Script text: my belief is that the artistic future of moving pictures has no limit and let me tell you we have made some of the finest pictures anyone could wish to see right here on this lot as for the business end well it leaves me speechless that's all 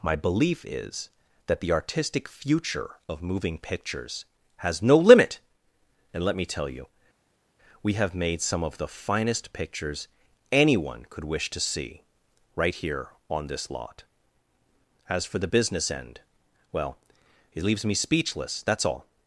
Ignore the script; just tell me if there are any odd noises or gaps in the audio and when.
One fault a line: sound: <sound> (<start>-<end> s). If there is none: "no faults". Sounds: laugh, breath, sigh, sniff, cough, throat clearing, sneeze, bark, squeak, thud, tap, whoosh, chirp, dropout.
no faults